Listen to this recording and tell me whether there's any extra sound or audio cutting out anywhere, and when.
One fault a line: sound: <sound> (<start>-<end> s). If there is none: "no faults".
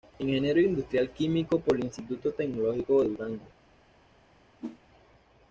sound: whoosh (4.6-4.8 s)